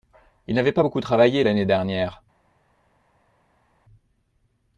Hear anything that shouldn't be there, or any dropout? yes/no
no